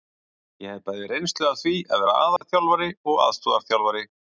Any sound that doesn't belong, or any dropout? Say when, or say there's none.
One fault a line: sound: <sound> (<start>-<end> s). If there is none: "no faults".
sound: dropout (2.4-2.4 s)